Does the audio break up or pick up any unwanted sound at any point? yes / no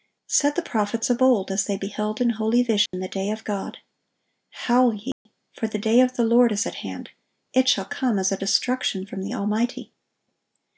yes